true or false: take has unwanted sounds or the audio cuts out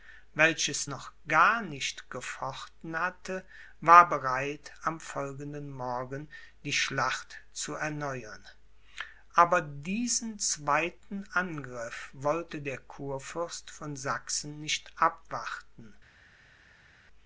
false